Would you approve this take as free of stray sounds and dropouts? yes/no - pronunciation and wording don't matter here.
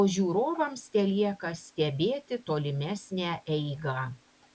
yes